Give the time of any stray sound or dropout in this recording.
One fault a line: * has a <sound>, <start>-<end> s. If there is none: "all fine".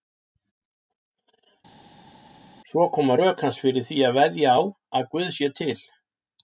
all fine